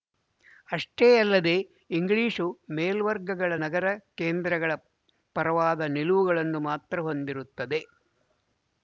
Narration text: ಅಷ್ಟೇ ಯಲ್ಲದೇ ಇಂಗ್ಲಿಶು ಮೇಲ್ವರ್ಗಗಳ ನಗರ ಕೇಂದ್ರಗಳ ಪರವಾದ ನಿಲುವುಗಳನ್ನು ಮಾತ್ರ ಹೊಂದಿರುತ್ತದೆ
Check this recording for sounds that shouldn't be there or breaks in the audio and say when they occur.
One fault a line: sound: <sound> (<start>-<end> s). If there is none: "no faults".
no faults